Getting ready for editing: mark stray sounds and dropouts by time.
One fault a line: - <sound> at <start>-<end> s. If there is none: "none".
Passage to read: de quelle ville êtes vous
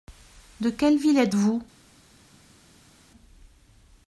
none